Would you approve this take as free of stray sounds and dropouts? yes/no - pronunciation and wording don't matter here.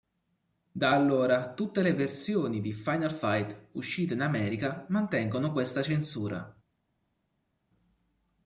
yes